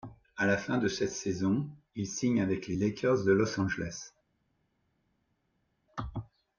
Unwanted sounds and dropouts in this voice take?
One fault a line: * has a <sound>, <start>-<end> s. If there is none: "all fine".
all fine